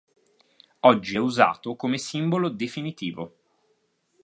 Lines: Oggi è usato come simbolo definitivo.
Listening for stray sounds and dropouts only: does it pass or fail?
pass